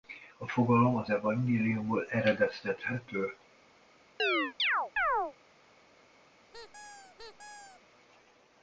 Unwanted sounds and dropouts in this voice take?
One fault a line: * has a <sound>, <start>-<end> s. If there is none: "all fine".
* has a chirp, 4.2-5.3 s
* has a squeak, 6.5-7.8 s